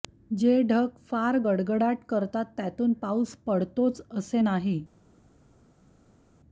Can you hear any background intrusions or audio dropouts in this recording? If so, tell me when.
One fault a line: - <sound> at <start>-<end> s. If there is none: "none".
none